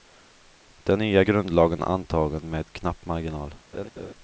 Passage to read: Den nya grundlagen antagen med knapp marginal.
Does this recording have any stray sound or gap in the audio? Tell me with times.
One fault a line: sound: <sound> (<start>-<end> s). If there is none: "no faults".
sound: laugh (3.7-4.1 s)